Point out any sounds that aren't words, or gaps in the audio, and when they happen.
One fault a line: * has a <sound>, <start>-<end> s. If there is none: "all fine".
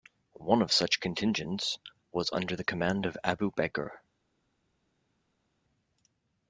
all fine